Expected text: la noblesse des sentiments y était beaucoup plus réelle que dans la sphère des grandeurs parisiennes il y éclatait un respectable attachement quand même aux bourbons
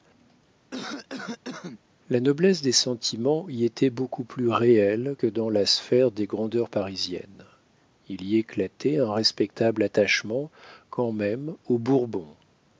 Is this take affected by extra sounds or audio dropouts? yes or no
yes